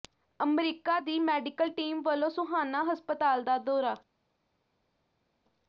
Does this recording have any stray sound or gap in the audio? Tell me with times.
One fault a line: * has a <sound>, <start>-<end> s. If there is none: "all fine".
all fine